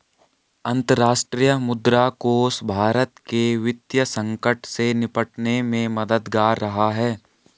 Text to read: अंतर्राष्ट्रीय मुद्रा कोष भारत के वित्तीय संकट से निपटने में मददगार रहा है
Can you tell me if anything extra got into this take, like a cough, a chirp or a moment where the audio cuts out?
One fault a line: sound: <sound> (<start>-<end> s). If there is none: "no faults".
no faults